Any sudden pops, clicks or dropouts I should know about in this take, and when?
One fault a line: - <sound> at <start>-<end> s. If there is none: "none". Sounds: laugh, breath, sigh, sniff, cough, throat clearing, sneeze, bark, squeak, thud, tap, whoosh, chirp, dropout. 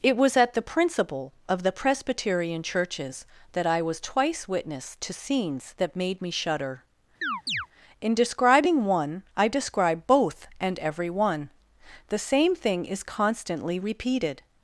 - chirp at 7.2-7.7 s